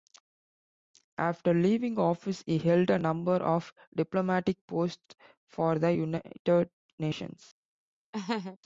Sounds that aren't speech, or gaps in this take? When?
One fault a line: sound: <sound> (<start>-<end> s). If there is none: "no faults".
sound: laugh (8.1-8.6 s)